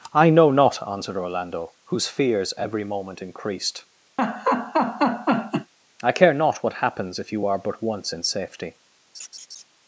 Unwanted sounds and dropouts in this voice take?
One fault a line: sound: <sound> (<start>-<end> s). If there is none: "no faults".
sound: laugh (4.2-5.7 s)
sound: laugh (9.1-9.6 s)